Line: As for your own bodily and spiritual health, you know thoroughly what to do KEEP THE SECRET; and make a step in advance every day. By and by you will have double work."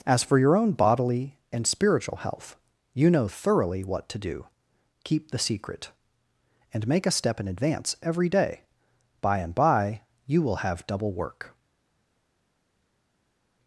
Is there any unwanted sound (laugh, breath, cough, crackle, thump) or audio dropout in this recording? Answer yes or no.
no